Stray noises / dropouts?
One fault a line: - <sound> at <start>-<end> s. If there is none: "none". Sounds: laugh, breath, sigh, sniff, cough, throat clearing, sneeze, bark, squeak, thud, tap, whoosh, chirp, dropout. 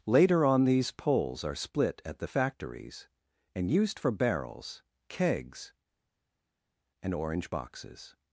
none